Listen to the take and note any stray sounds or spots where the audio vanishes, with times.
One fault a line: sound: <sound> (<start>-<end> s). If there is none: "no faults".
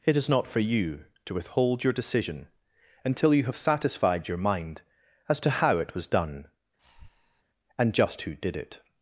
sound: breath (6.8-7.4 s)